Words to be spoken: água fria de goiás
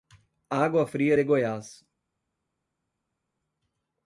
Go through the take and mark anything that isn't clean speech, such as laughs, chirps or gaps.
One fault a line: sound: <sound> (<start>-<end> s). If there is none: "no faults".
no faults